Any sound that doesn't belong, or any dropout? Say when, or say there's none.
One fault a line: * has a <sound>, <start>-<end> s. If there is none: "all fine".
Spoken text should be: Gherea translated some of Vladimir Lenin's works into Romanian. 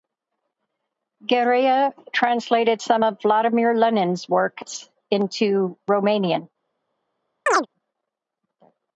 * has a chirp, 7.5-7.7 s